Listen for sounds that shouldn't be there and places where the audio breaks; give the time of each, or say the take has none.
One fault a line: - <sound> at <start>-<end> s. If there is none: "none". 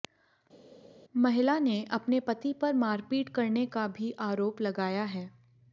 none